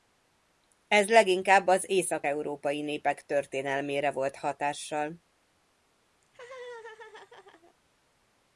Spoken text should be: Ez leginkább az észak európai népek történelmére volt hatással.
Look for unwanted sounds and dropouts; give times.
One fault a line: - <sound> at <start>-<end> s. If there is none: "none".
- laugh at 6.2-7.7 s